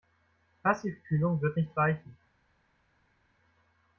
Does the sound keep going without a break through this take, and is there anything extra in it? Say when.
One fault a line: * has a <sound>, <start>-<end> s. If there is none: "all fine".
all fine